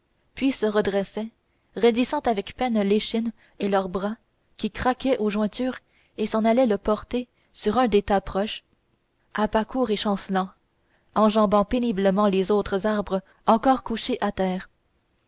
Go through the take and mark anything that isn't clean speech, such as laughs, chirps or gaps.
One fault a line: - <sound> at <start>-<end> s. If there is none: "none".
none